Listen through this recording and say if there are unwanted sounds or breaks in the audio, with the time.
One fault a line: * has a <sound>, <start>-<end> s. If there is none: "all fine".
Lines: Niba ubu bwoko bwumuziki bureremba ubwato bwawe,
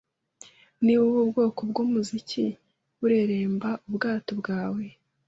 all fine